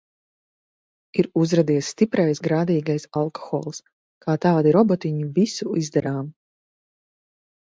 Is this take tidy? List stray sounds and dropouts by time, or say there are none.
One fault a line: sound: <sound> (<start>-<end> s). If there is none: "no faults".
no faults